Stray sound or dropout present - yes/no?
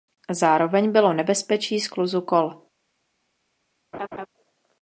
yes